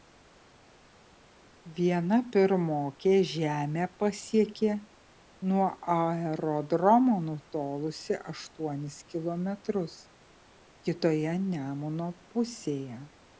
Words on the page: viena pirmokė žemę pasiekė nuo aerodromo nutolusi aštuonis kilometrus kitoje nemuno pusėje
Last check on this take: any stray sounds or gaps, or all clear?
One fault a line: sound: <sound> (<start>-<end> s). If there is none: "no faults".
no faults